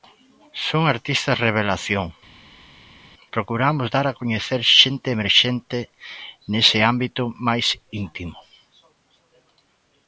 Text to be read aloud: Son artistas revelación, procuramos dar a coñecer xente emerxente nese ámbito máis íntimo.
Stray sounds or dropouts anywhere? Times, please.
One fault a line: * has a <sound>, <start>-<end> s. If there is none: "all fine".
all fine